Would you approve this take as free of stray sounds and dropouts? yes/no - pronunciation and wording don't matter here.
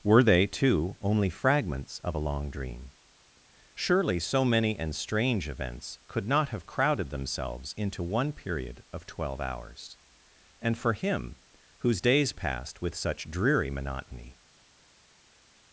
yes